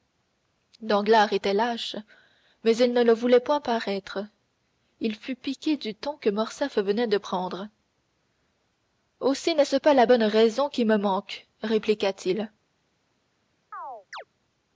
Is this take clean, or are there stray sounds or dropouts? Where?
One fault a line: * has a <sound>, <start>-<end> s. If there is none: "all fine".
* has a chirp, 13.7-14.2 s